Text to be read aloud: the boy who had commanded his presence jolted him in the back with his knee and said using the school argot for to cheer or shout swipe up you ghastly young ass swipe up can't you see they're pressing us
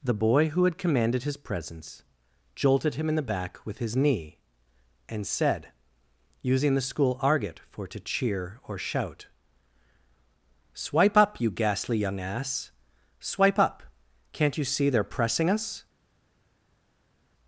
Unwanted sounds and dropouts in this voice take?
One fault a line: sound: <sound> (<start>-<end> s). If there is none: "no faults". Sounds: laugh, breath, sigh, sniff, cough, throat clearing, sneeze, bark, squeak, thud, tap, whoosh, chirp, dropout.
no faults